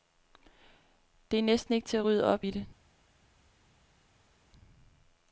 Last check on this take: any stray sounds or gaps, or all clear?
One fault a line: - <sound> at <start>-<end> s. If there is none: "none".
none